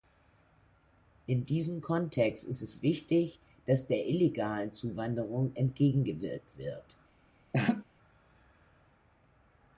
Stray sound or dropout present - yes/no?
yes